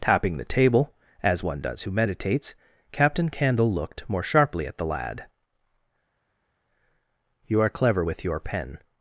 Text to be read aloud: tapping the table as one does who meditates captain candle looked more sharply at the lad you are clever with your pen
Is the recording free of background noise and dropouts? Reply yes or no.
yes